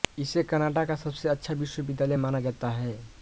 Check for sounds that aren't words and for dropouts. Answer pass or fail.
pass